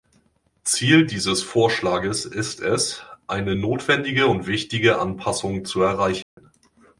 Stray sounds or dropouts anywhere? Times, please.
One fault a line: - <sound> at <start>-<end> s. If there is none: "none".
- dropout at 6.2-6.4 s